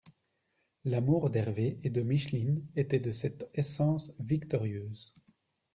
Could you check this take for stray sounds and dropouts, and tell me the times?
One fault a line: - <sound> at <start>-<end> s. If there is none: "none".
none